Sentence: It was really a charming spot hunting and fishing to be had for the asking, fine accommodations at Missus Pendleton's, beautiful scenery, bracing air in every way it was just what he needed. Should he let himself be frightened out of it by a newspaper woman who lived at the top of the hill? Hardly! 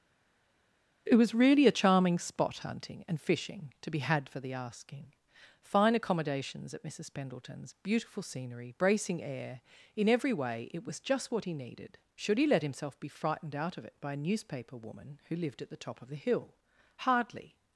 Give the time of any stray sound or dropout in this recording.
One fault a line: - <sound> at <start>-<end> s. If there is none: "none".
none